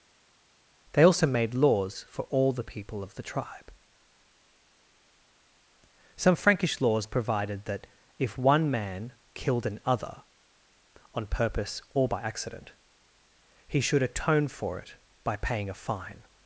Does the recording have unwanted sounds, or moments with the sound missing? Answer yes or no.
no